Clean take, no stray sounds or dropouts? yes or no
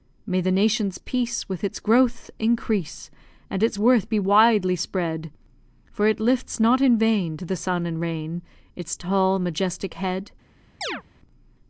no